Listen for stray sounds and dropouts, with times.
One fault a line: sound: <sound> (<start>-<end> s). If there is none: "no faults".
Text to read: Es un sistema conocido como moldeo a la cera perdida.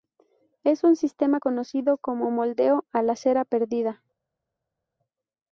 no faults